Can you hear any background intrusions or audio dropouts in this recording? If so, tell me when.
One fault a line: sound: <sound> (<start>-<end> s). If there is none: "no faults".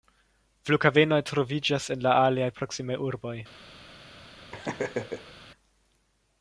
sound: laugh (4.5-5.3 s)